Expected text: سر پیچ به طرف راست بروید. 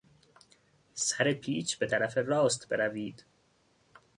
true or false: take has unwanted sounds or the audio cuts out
false